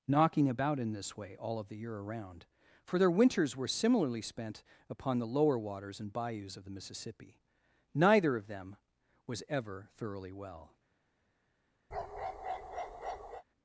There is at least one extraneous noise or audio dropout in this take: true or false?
true